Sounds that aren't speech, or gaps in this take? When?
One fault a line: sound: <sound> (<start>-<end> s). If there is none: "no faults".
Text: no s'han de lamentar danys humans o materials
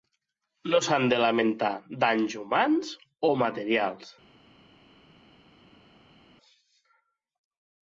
no faults